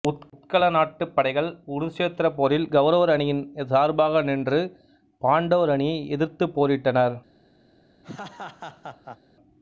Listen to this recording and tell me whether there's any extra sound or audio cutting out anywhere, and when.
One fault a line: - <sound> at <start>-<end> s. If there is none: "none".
- laugh at 8.0-9.2 s